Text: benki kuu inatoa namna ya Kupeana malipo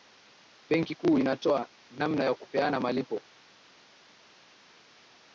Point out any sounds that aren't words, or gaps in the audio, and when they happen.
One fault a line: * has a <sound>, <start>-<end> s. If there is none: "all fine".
all fine